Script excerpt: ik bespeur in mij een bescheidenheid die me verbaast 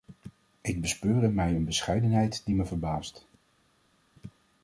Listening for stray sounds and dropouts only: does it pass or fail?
pass